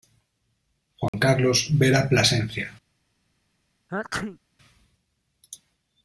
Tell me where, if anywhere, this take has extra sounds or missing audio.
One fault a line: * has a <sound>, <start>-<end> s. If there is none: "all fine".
* has a dropout, 1.1-1.1 s
* has a sneeze, 3.9-4.4 s